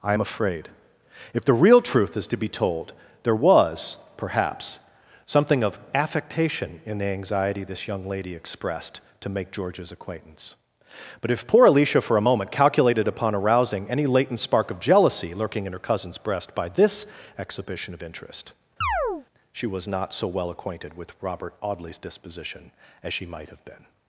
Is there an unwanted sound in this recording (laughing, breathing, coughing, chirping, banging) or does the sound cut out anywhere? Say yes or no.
yes